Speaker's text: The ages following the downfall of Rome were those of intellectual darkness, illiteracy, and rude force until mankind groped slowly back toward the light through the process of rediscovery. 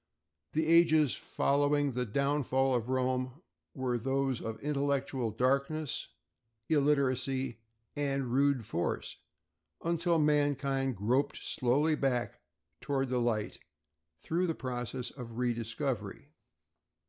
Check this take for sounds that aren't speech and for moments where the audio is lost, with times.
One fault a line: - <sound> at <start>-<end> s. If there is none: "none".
none